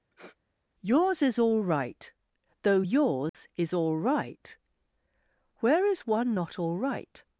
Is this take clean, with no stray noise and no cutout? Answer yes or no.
no